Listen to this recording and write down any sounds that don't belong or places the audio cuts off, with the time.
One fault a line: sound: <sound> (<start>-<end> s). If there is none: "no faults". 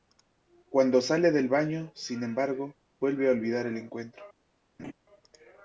sound: laugh (4.8-4.9 s)